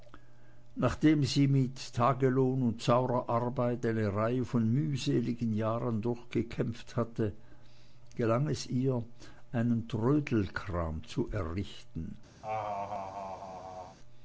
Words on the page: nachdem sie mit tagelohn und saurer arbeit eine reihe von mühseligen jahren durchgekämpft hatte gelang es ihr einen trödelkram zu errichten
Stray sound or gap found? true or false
true